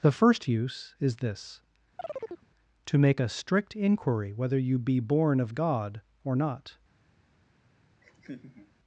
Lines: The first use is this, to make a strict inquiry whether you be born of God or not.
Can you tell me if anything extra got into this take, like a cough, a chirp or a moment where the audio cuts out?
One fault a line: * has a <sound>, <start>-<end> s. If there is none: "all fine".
* has a chirp, 2.0-2.5 s
* has a laugh, 8.0-8.7 s